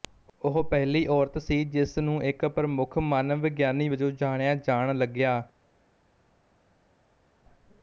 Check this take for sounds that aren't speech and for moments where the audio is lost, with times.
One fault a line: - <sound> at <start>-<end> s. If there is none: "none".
none